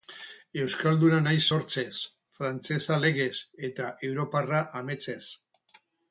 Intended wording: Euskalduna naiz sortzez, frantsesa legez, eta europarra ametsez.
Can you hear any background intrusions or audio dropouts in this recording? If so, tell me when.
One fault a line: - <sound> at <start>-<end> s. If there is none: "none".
none